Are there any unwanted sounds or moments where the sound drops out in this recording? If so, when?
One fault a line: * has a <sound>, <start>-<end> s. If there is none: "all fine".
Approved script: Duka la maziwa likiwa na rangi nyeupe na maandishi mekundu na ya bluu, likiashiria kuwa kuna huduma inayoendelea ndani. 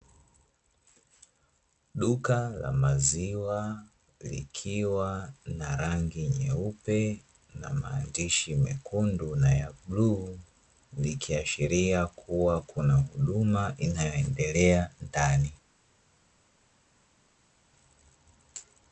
all fine